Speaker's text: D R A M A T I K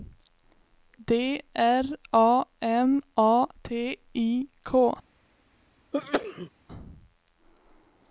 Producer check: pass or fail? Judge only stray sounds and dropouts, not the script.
fail